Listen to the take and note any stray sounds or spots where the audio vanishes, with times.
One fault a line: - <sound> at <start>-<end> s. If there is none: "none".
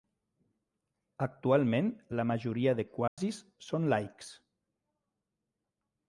- dropout at 3.1-3.2 s